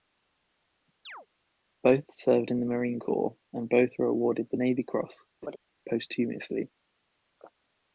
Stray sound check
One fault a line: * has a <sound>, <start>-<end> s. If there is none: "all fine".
* has a chirp, 1.1-1.3 s
* has a laugh, 5.4-5.6 s